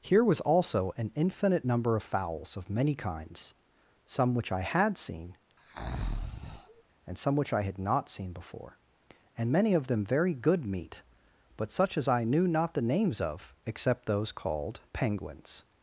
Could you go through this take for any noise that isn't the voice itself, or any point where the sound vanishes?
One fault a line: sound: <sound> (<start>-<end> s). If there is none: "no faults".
sound: breath (5.6-6.8 s)